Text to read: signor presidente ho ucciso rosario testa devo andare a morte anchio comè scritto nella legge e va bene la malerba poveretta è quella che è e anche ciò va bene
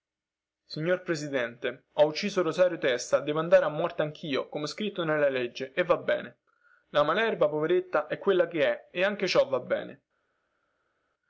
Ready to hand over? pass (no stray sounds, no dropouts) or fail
pass